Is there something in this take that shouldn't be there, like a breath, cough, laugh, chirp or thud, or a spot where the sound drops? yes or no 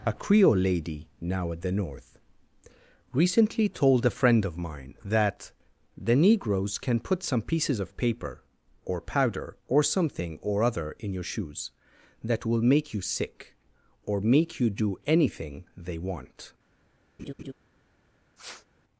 yes